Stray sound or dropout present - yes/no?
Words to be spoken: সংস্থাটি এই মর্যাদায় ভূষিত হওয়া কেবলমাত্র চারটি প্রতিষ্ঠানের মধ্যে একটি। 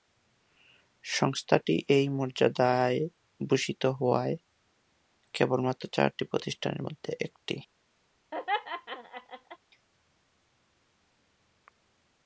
yes